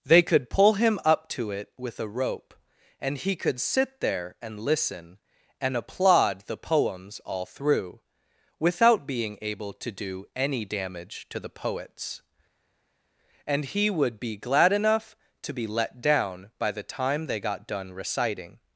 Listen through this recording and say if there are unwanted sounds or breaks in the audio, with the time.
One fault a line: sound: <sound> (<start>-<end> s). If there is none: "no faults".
no faults